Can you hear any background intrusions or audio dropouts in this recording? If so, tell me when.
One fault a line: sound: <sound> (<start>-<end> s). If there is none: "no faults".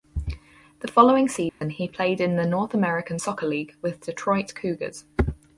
sound: dropout (1.5-1.6 s)